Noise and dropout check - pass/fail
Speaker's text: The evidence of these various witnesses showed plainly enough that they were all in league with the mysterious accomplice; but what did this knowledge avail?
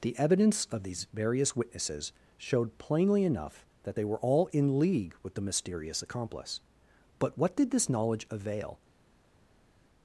pass